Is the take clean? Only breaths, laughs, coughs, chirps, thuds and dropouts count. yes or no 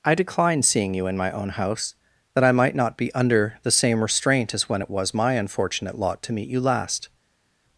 yes